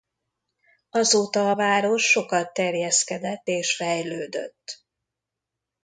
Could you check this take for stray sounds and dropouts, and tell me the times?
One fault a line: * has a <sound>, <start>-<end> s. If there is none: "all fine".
all fine